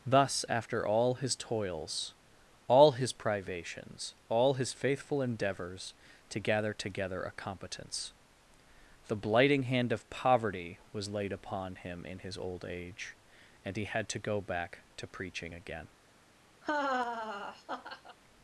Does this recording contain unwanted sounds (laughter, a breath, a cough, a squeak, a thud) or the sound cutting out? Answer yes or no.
yes